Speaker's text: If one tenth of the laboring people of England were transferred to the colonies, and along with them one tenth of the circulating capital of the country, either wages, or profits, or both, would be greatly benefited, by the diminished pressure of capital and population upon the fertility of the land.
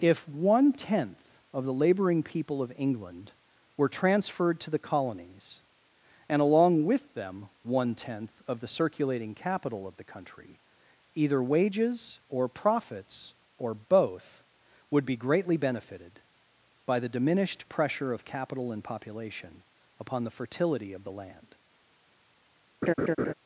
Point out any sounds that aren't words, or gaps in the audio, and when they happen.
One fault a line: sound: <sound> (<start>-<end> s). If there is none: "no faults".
sound: laugh (22.8-23.3 s)